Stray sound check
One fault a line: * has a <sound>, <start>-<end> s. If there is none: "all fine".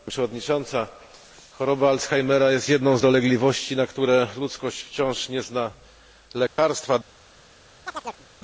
* has a dropout, 6.5-6.6 s
* has a chirp, 7.9-8.3 s